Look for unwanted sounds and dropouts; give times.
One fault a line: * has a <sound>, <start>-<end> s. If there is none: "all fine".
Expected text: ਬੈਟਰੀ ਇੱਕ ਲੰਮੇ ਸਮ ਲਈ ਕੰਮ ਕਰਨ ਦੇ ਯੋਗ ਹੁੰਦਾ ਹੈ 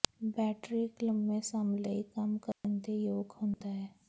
* has a dropout, 2.5-2.6 s
* has a dropout, 3.5-3.6 s